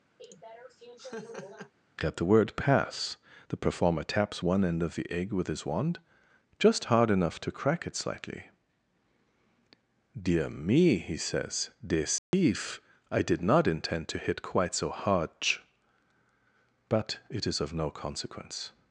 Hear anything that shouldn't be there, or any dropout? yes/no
yes